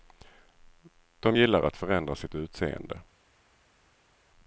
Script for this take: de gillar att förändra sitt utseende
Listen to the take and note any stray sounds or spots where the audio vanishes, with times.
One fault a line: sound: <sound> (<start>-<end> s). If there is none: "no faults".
no faults